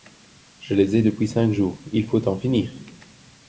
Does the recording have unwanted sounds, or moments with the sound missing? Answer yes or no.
no